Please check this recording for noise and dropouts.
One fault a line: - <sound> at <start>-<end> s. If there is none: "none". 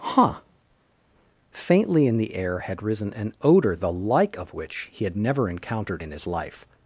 none